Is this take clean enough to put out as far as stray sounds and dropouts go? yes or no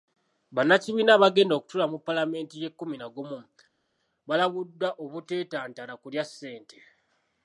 yes